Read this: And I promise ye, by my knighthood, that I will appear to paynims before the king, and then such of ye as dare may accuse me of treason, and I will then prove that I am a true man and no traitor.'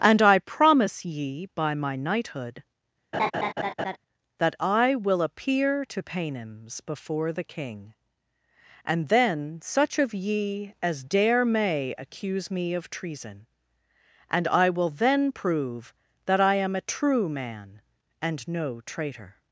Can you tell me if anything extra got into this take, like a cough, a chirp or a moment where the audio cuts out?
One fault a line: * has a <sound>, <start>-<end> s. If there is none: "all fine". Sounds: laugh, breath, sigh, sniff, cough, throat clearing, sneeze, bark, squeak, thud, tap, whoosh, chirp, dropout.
* has a laugh, 3.1-4.0 s